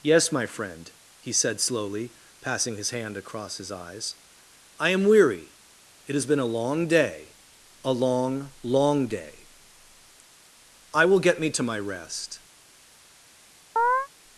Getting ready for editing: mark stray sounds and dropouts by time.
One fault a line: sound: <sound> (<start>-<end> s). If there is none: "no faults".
sound: chirp (13.8-14.1 s)